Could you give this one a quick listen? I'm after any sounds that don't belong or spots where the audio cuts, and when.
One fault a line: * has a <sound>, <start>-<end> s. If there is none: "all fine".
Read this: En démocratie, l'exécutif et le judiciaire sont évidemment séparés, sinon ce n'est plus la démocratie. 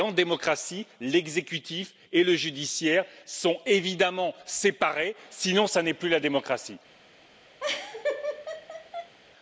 * has a laugh, 7.6-9.1 s